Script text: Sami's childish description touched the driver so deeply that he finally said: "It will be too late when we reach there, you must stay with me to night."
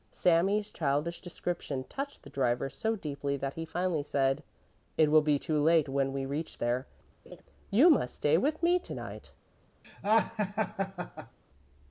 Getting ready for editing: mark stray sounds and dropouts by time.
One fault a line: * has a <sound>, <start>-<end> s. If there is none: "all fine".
* has a laugh, 7.3-7.4 s
* has a laugh, 9.8-11.4 s